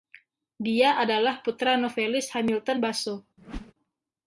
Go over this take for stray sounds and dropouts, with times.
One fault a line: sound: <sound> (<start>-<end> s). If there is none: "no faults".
sound: whoosh (3.4-3.7 s)